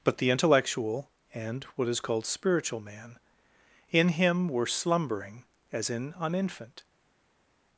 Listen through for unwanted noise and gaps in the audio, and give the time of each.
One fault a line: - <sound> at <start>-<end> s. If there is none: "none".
none